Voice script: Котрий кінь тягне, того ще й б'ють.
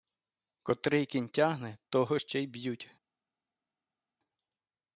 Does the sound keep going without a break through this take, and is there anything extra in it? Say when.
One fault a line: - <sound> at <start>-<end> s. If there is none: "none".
none